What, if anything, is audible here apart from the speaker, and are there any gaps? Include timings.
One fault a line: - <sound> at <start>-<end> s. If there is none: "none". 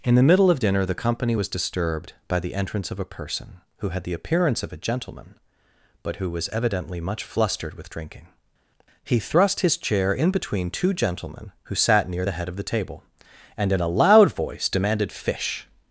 none